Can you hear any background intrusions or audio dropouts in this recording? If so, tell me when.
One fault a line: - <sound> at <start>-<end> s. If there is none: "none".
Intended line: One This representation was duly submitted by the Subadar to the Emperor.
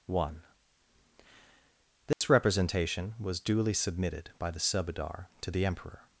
- dropout at 2.1-2.2 s